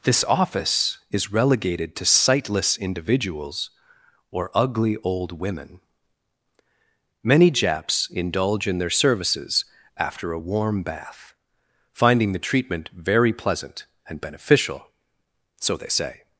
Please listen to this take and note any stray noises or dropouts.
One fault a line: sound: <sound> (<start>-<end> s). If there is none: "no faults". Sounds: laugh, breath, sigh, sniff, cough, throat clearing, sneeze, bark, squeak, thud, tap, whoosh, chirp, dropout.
no faults